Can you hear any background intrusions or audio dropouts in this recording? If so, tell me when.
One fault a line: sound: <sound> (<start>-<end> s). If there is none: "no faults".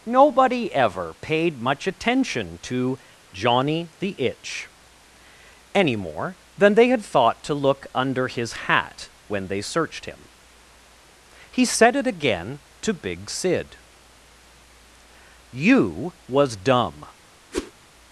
sound: whoosh (17.5-17.7 s)